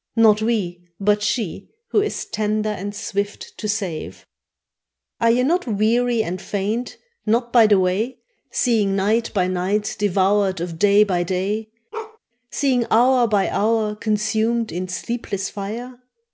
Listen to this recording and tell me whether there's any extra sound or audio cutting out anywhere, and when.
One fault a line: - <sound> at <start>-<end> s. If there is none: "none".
- bark at 11.9-12.2 s